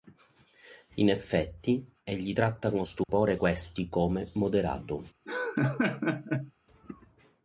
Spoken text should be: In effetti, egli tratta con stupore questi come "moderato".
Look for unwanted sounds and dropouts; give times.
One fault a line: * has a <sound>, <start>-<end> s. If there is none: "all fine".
* has a dropout, 3.0-3.1 s
* has a laugh, 5.3-6.5 s